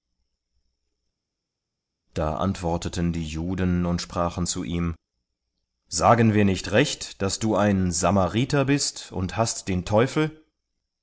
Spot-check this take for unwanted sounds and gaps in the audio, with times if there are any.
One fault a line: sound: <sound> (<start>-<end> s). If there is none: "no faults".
no faults